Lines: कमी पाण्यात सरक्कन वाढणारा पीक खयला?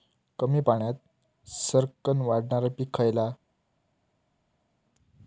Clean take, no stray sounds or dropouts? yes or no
yes